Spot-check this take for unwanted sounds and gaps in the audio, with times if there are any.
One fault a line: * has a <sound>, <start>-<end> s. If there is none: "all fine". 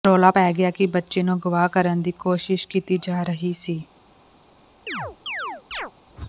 * has a chirp, 4.9-5.9 s